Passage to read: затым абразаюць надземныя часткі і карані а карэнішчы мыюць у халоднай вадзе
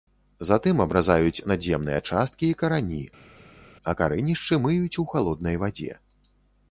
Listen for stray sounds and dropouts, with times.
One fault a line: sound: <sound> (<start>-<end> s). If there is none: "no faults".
no faults